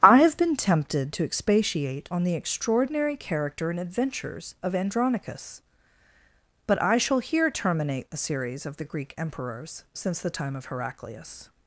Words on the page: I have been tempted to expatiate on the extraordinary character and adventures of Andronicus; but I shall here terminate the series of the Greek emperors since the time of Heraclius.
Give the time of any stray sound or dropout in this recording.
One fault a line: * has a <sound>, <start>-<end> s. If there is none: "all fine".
all fine